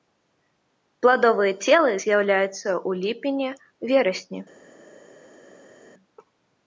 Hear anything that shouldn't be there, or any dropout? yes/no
no